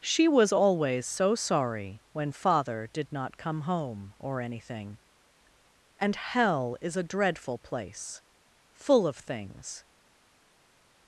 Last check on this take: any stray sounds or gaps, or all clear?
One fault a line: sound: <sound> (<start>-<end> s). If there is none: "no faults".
no faults